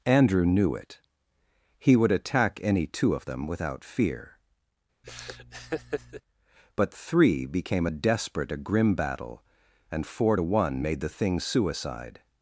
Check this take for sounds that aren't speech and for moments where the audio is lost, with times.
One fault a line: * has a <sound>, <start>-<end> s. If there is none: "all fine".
* has a laugh, 5.0-6.2 s